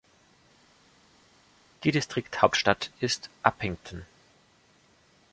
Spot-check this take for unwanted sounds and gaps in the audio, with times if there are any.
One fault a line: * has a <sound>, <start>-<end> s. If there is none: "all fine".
all fine